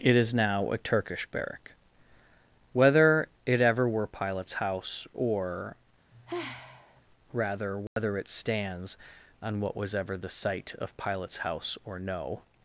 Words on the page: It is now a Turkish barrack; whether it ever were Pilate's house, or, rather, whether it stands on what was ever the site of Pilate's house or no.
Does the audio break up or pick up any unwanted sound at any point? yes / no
yes